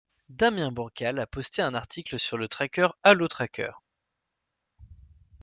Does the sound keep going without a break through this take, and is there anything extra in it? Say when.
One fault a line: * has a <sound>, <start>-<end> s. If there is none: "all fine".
all fine